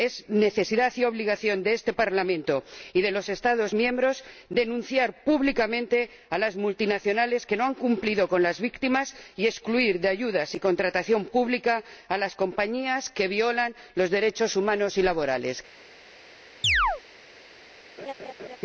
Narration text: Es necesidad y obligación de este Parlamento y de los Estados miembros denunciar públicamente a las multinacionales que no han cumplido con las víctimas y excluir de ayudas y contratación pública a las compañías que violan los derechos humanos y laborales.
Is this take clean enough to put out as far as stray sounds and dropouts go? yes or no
no